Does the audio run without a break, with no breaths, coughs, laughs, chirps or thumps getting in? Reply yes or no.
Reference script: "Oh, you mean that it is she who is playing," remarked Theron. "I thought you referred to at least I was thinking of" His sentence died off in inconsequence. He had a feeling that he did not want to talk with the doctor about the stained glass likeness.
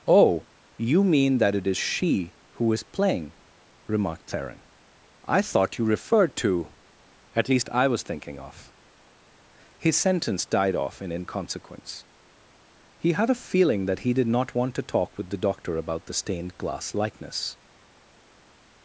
yes